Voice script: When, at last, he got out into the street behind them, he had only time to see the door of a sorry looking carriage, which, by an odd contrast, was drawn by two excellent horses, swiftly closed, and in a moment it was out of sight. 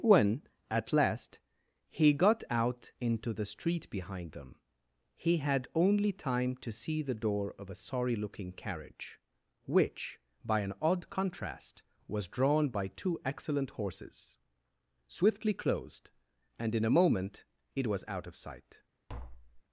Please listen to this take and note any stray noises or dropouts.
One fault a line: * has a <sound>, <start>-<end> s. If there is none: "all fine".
* has a tap, 19.1-19.6 s